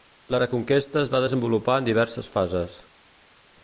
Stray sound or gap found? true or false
false